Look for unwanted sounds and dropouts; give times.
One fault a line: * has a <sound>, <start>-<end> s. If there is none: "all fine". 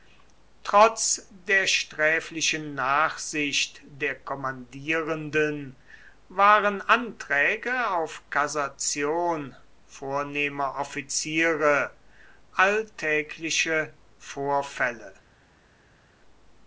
all fine